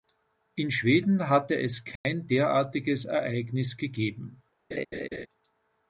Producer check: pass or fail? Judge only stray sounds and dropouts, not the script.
fail